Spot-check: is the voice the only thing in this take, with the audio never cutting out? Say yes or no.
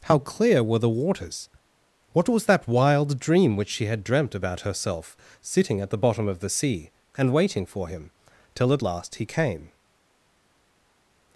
yes